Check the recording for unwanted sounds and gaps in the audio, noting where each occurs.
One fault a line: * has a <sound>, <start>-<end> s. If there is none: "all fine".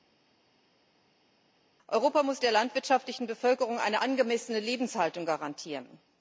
all fine